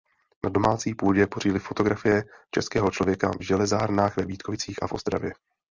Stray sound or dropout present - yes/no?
no